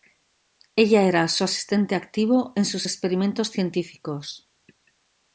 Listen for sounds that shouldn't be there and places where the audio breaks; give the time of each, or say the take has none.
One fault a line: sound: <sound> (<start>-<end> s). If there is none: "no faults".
no faults